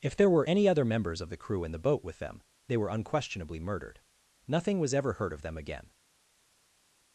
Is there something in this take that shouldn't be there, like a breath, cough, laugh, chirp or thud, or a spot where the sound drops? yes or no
no